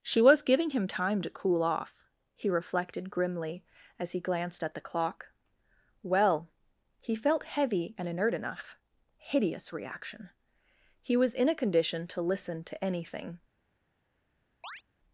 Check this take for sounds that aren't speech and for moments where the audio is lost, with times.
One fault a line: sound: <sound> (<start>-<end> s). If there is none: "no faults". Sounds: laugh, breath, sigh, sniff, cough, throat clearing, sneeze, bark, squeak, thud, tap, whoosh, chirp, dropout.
sound: chirp (14.6-14.8 s)